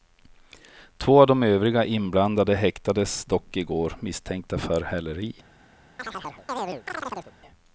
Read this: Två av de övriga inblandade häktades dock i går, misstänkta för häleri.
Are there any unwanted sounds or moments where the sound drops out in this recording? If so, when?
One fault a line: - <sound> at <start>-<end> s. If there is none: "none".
- chirp at 6.0-7.3 s